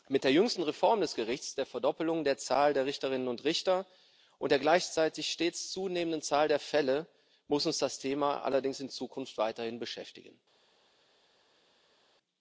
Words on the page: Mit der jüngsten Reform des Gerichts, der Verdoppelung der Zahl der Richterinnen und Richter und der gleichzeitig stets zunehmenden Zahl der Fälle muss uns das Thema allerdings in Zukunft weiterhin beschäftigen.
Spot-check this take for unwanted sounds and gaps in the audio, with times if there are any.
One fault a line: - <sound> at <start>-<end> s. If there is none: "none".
none